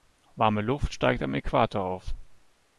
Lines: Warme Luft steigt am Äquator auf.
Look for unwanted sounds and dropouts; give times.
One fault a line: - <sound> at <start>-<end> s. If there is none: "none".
none